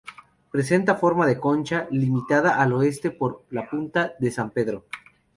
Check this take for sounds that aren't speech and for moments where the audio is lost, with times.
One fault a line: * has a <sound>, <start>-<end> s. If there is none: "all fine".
all fine